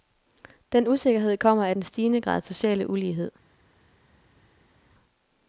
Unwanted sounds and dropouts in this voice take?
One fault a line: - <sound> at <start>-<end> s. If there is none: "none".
none